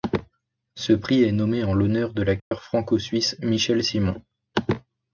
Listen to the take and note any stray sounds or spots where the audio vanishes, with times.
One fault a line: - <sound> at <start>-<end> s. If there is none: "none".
- dropout at 2.4-2.5 s